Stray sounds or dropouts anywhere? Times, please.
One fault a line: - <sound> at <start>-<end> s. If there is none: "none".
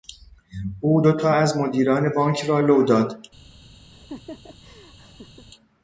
- laugh at 3.9-5.5 s